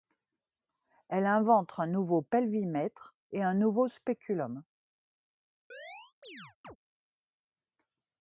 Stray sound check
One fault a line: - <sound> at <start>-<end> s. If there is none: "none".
- chirp at 5.7-6.8 s